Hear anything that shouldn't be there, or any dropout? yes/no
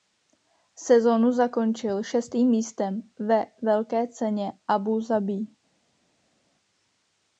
no